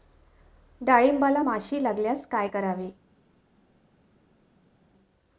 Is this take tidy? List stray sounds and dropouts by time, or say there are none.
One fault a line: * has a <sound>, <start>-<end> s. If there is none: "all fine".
all fine